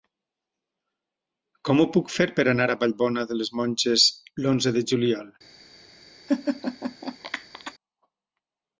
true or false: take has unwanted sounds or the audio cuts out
true